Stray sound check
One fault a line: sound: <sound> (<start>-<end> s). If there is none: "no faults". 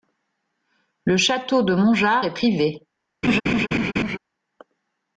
sound: laugh (3.2-4.2 s)